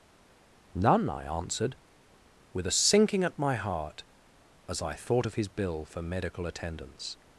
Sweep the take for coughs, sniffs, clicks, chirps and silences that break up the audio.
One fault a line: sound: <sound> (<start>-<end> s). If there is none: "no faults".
no faults